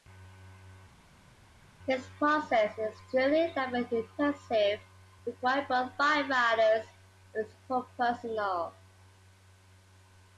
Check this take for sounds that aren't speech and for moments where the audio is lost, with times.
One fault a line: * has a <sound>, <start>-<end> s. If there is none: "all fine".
all fine